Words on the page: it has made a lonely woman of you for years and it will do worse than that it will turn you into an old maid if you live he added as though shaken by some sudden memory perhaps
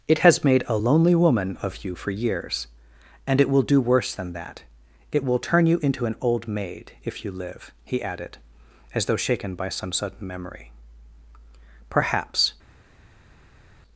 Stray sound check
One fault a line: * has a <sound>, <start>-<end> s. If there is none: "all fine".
all fine